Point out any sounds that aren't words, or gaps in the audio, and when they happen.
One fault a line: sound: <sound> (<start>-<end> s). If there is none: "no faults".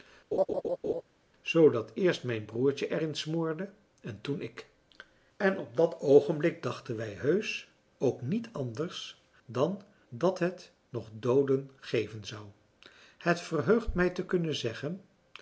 sound: laugh (0.3-1.0 s)